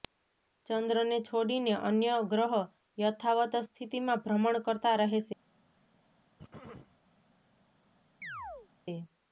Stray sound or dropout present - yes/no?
yes